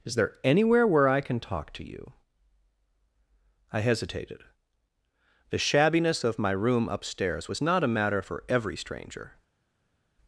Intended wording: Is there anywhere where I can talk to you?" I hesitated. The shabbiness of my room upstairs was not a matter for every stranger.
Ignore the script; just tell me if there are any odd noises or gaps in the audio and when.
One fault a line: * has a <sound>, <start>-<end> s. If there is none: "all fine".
all fine